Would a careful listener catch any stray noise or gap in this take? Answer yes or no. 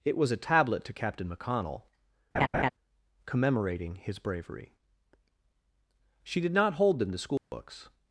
yes